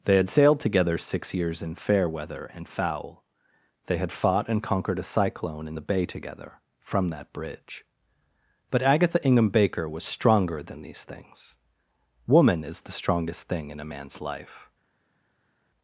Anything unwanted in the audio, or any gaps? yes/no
no